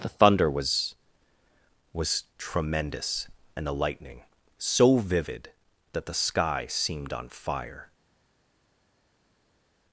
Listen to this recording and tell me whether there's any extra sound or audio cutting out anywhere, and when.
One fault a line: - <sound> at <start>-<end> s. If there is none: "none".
none